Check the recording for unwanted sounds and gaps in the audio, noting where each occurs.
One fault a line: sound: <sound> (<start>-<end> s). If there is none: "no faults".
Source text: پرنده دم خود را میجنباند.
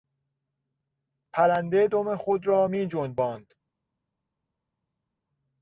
no faults